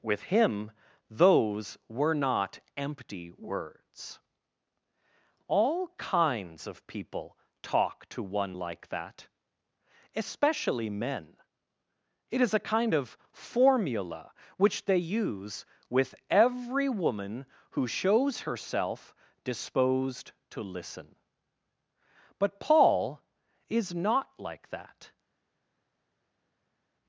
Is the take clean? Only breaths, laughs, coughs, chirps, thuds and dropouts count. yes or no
yes